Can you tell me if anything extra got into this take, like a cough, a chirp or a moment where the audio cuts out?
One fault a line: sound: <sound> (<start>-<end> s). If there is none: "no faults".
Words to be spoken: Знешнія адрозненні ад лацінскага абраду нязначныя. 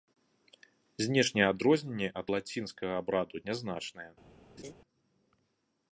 sound: laugh (4.6-4.7 s)